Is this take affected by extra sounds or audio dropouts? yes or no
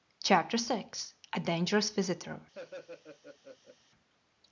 yes